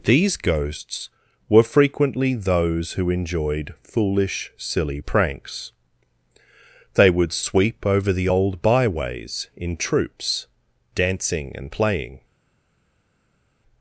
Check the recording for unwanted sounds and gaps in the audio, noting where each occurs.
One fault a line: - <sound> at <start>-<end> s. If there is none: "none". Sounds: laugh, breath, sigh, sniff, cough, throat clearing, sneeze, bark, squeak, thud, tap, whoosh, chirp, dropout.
none